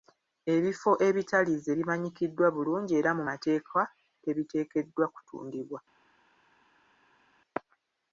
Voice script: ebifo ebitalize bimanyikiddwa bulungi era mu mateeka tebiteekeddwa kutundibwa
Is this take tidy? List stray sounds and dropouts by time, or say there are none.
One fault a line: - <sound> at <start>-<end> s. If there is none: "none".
none